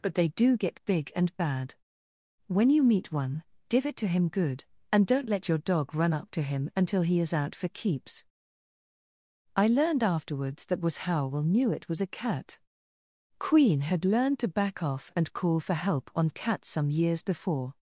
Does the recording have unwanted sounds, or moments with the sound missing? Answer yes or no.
no